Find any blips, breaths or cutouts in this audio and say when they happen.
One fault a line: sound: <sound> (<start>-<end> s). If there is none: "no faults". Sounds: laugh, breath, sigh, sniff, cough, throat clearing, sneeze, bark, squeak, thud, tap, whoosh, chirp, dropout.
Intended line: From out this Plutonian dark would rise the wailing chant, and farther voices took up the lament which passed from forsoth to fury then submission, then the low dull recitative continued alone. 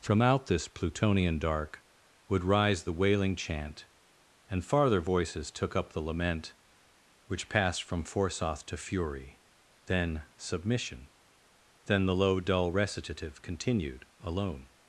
no faults